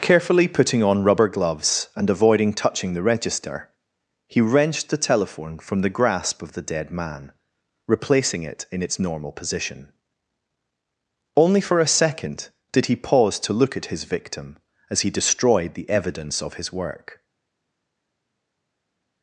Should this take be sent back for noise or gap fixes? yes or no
no